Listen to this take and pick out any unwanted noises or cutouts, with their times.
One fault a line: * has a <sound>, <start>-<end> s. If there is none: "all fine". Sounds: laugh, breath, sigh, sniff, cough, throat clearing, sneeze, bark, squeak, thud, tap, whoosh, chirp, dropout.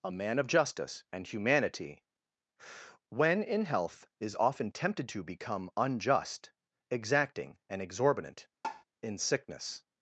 * has a tap, 8.6-8.8 s